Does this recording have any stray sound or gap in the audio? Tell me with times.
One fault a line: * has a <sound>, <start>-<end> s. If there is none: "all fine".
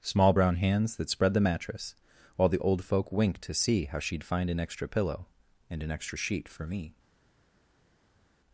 all fine